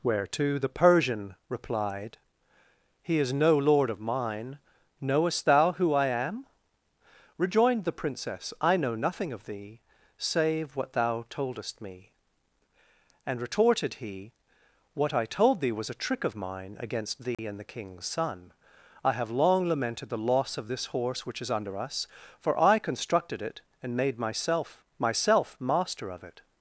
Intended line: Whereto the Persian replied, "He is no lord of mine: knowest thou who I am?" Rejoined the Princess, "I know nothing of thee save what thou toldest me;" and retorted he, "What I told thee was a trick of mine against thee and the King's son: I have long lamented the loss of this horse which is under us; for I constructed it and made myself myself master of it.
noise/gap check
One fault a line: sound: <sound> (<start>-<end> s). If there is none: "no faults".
sound: dropout (17.3-17.4 s)